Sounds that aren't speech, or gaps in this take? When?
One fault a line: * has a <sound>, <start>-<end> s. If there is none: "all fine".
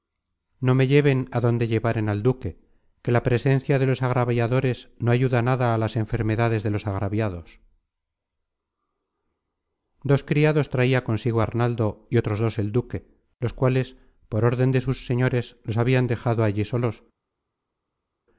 all fine